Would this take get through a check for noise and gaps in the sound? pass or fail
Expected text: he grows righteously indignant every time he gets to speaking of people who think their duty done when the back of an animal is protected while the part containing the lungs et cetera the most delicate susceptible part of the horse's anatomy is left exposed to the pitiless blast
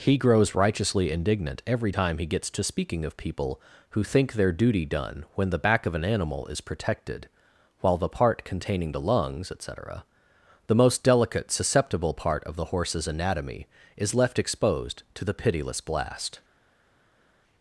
pass